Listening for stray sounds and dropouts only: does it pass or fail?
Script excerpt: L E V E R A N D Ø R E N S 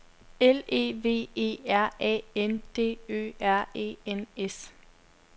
pass